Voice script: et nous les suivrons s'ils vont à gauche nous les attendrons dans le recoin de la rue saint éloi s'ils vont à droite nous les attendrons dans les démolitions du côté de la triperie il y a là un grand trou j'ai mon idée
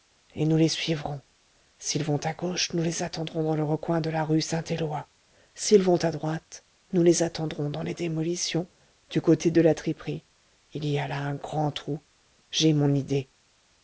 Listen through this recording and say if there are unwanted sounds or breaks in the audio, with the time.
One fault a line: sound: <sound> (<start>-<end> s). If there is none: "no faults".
no faults